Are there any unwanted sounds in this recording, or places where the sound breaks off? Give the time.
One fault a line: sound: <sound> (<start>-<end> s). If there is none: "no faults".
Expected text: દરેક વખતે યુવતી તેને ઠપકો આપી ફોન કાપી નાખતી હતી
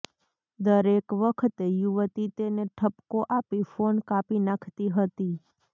no faults